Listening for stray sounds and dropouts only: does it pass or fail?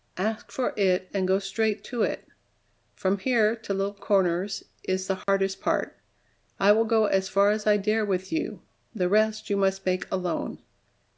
fail